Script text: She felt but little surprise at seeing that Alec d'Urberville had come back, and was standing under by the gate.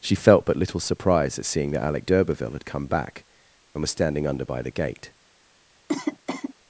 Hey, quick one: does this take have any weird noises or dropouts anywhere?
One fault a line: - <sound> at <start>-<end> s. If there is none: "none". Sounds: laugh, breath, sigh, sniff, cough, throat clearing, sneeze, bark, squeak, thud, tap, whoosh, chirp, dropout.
- cough at 5.9-6.5 s